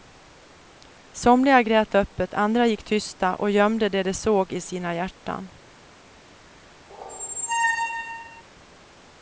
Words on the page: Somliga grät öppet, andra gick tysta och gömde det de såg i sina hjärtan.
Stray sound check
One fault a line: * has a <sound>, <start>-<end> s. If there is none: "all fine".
* has a squeak, 6.9-8.4 s